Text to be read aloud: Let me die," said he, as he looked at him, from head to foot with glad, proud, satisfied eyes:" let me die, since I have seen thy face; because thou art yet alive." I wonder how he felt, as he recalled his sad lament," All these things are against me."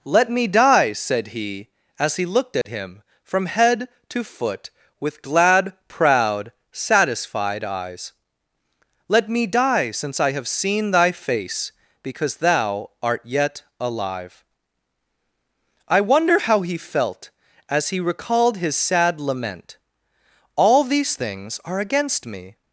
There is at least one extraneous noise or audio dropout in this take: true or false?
true